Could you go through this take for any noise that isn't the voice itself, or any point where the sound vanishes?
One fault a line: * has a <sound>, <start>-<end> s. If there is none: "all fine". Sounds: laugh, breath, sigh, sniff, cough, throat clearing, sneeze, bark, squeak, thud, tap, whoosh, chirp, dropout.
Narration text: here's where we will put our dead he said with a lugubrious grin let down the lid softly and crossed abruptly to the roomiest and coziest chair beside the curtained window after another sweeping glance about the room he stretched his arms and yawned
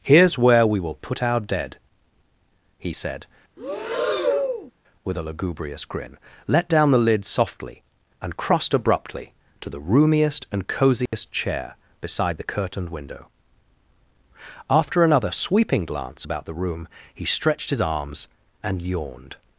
* has a breath, 3.6-4.7 s
* has a dropout, 11.1-11.1 s